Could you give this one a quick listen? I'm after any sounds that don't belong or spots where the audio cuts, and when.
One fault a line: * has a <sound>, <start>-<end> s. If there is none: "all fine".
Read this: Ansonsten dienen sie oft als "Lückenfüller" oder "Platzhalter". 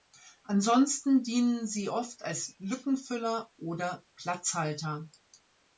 all fine